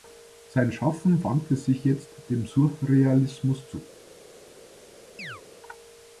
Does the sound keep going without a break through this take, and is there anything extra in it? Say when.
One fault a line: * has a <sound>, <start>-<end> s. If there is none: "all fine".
* has a chirp, 5.2-5.4 s